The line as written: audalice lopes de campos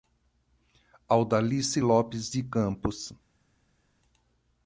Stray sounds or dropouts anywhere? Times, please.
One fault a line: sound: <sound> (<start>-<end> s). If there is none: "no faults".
no faults